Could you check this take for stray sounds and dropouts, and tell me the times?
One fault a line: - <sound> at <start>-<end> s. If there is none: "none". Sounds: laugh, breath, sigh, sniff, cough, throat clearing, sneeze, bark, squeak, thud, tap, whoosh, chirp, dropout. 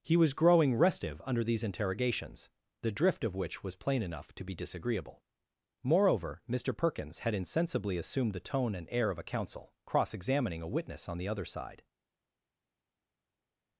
none